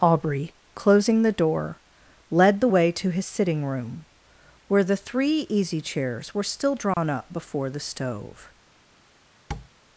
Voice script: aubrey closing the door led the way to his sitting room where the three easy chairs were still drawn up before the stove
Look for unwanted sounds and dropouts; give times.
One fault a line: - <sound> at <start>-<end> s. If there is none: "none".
- dropout at 6.9-7.0 s
- tap at 9.5-9.7 s